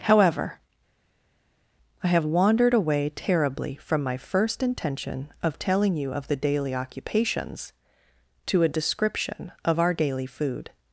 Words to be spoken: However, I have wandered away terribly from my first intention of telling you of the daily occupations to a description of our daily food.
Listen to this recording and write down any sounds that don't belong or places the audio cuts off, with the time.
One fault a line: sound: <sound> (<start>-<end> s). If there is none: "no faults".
no faults